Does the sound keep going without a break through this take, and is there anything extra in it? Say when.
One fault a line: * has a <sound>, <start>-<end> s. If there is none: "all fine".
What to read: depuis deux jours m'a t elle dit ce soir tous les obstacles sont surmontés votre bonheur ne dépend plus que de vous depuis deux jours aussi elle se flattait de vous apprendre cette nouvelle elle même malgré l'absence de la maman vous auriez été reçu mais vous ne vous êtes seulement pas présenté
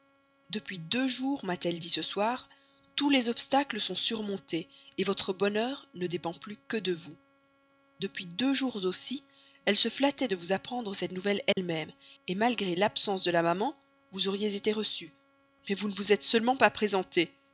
* has a dropout, 11.5-11.6 s